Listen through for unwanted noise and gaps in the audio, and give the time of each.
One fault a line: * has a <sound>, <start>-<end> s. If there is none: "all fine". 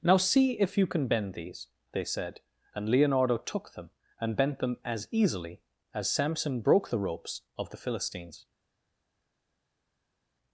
all fine